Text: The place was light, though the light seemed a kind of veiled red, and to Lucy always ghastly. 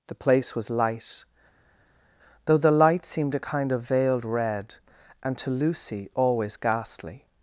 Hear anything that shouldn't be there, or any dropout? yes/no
no